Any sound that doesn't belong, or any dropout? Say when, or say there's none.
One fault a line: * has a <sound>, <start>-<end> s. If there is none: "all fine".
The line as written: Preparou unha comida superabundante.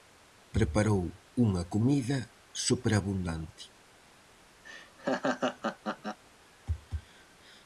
* has a laugh, 4.6-6.2 s